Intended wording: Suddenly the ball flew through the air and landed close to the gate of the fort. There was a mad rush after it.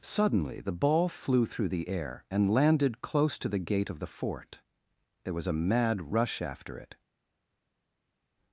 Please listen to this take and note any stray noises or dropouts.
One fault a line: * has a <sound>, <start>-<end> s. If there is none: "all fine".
all fine